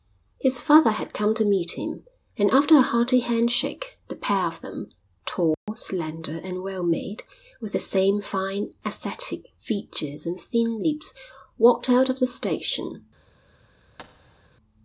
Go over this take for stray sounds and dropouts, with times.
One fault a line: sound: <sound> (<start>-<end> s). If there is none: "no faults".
sound: dropout (5.5-5.7 s)
sound: thud (14.0-14.5 s)